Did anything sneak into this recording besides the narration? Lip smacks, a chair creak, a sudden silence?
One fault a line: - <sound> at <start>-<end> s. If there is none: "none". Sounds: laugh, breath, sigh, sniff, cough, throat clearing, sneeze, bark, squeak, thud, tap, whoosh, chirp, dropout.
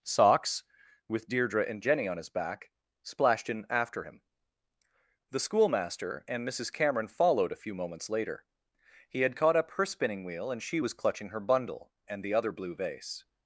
none